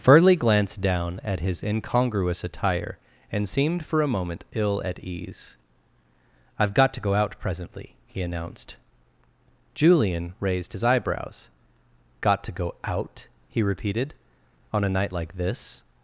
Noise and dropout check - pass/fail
pass